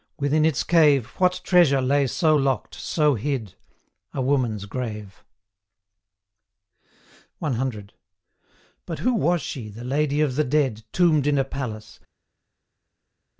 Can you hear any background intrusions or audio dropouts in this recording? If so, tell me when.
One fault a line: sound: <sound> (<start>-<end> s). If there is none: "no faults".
no faults